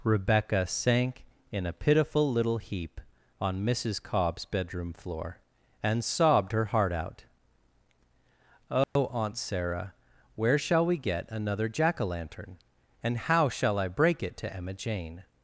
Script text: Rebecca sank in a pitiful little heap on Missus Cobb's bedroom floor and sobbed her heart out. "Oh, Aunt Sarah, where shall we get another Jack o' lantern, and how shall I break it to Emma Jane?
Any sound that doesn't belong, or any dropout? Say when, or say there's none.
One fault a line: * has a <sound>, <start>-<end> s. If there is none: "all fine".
* has a dropout, 8.8-9.0 s